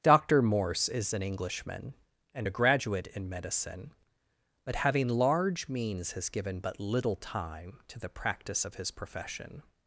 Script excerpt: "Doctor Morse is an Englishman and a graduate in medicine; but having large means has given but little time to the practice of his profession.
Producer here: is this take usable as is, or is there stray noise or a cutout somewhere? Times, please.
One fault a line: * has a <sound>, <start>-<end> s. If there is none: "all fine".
all fine